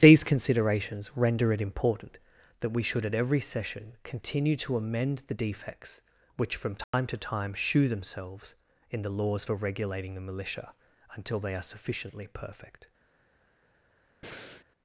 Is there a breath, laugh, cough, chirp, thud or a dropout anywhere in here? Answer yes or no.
yes